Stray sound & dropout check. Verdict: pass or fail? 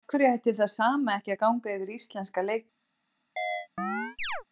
fail